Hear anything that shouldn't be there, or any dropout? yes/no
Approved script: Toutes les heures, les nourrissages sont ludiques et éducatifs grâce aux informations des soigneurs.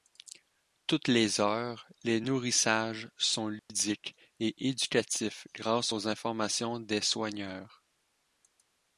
yes